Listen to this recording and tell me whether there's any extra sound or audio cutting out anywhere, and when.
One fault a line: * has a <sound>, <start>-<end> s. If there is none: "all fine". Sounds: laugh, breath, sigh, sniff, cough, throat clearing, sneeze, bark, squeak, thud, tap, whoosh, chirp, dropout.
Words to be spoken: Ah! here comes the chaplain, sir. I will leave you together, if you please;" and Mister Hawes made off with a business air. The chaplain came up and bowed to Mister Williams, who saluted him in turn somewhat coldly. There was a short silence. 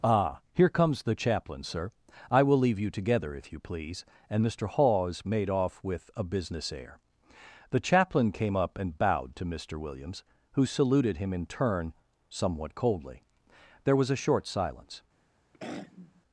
* has a throat clearing, 15.5-16.2 s